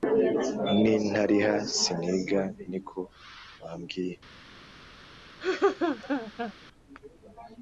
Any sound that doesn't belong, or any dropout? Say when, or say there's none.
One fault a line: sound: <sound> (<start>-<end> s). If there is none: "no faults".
sound: laugh (5.4-6.5 s)